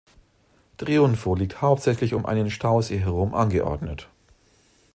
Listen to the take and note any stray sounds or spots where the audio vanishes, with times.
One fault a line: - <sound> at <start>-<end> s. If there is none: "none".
none